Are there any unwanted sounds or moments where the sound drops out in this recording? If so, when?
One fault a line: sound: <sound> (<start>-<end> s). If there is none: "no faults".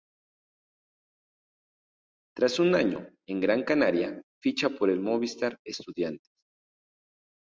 no faults